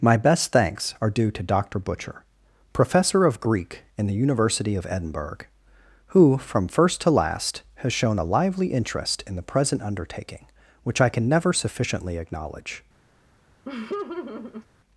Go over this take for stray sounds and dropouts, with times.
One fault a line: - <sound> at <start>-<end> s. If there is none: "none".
- laugh at 13.6-14.7 s